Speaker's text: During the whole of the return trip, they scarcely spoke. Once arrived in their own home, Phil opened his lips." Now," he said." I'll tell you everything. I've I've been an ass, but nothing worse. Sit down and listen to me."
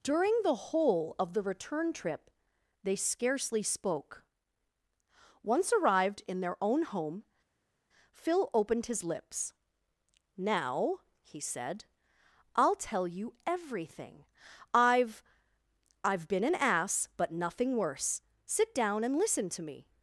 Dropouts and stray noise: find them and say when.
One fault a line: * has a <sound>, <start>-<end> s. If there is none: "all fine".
all fine